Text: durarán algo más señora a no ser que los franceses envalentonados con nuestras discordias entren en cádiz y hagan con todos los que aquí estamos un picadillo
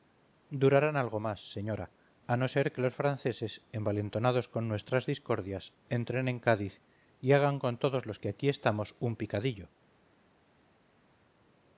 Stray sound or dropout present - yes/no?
no